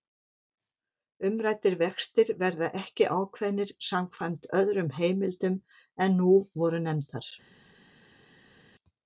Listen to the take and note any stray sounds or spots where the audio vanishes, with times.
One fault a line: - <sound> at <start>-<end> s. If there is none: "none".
none